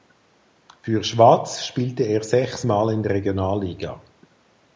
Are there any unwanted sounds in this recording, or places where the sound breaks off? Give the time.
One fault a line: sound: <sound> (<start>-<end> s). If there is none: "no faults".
no faults